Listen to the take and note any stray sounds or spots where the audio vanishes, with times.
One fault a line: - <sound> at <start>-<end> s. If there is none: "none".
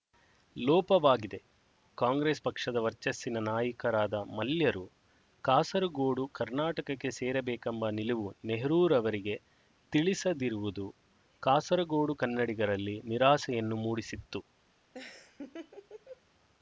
- laugh at 14.9-16.2 s